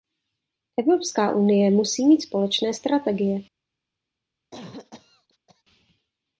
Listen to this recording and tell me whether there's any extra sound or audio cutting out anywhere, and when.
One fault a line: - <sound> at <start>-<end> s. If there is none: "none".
- cough at 4.5-5.6 s